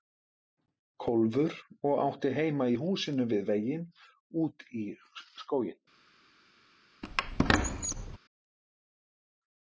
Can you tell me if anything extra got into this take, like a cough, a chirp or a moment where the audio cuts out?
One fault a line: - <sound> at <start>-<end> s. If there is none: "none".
- squeak at 7.0-8.2 s